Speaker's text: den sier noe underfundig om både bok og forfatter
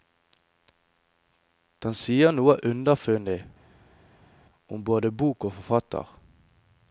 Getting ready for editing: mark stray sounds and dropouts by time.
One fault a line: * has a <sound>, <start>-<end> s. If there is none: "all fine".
all fine